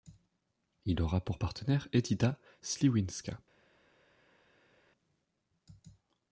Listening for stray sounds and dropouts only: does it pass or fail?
pass